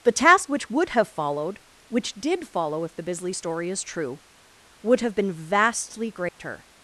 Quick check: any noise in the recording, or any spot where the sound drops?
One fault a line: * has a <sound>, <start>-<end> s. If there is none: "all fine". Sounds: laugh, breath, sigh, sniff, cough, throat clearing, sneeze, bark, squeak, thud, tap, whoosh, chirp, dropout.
* has a dropout, 6.3-6.4 s